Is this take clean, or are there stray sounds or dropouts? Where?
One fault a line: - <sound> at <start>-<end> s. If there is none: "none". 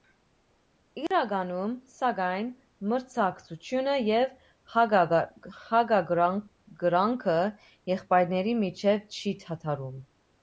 - dropout at 1.1-1.1 s